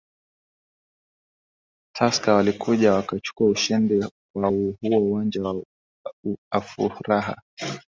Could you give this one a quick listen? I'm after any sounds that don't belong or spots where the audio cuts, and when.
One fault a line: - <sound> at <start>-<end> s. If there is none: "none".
none